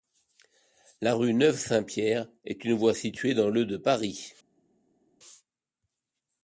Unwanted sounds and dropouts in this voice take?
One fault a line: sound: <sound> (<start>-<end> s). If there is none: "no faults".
no faults